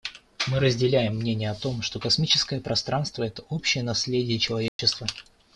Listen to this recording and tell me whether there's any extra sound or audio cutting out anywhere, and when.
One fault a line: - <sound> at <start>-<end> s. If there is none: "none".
- dropout at 4.7-4.8 s